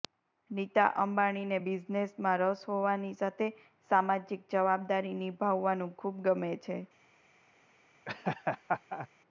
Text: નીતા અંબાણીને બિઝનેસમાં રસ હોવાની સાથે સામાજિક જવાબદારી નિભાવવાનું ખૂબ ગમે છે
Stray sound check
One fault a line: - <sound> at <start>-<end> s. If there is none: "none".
- laugh at 8.1-9.1 s